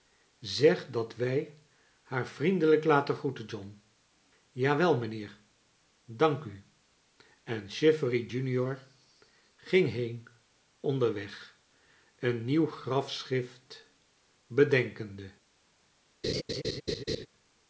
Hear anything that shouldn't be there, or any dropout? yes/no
yes